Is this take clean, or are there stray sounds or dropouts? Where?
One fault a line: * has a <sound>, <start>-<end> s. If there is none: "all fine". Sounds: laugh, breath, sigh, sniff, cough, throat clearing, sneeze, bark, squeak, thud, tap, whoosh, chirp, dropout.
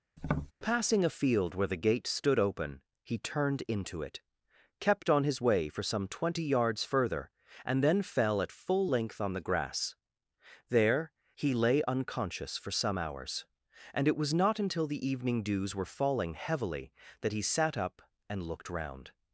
* has a tap, 0.2-0.5 s